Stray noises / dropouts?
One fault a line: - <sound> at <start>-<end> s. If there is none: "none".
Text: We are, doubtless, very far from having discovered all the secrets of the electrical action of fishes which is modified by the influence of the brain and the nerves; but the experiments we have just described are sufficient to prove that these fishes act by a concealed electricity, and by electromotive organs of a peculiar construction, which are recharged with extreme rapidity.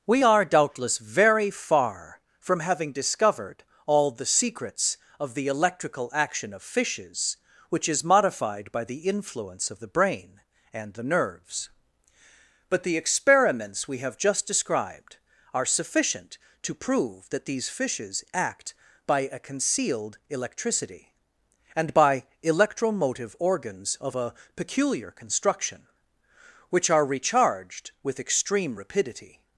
none